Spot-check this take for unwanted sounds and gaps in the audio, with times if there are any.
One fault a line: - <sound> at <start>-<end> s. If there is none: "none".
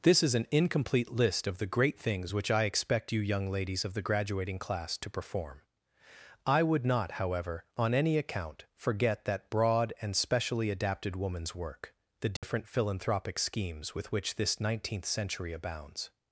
- dropout at 12.4-12.4 s